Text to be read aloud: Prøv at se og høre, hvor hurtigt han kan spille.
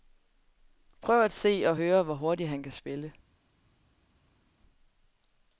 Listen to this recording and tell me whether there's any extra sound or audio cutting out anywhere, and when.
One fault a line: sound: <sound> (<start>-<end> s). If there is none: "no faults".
no faults